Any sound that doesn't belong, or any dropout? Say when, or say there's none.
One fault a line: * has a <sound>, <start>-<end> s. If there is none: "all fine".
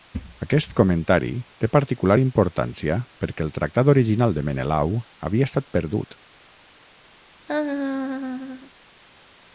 * has a laugh, 7.5-8.7 s